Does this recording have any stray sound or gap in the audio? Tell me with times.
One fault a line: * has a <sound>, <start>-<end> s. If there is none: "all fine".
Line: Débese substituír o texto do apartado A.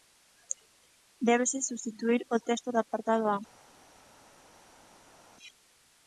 all fine